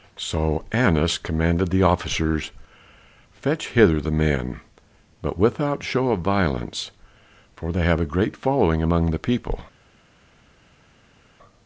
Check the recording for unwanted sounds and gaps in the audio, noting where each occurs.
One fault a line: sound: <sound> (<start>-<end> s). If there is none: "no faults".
no faults